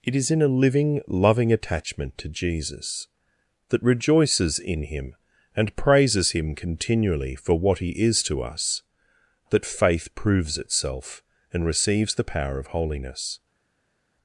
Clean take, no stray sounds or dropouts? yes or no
yes